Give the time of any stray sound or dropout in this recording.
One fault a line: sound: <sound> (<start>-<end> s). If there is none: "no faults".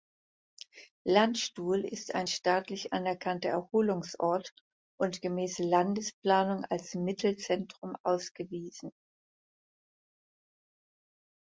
no faults